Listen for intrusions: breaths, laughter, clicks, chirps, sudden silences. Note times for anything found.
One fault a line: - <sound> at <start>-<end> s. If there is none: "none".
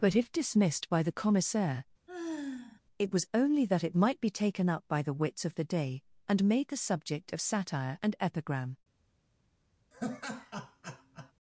- sigh at 2.1-2.8 s
- laugh at 9.9-11.3 s